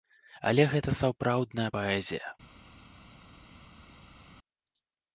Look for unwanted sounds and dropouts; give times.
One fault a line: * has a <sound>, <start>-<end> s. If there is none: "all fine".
all fine